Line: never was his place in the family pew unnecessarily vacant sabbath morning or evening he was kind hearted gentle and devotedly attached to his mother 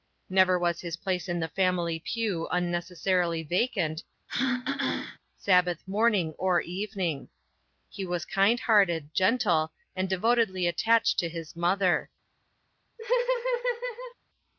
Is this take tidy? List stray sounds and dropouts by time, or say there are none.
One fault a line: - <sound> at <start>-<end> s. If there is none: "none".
- throat clearing at 4.3-5.2 s
- laugh at 13.0-14.1 s